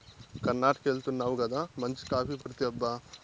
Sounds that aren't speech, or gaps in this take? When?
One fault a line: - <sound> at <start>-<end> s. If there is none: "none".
- dropout at 2.4-2.5 s